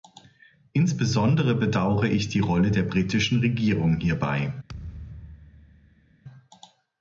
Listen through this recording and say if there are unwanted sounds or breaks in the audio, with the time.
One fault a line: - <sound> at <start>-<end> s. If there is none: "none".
- thud at 4.7-6.1 s